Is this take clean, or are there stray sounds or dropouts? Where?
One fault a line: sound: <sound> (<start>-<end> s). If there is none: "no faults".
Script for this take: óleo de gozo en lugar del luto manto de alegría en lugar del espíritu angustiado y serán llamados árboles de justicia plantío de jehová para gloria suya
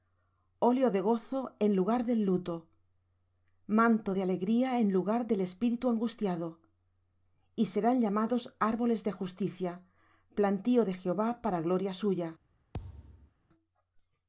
sound: thud (12.7-13.3 s)